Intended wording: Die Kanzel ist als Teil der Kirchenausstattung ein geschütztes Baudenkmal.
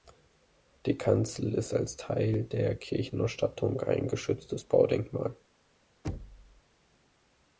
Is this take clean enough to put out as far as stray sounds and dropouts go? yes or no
no